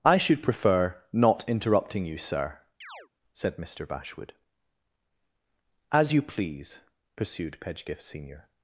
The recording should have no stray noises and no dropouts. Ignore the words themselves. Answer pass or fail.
fail